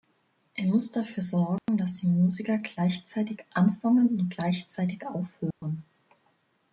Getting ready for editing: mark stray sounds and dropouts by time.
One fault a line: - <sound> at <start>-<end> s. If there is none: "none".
- dropout at 1.6-1.7 s
- dropout at 5.5-5.6 s